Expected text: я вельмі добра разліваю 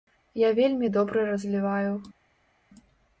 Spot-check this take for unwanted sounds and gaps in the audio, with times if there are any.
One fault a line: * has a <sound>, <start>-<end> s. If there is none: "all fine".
all fine